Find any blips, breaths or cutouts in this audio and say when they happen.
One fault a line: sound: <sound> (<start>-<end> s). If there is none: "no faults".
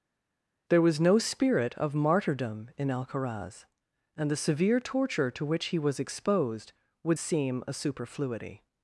no faults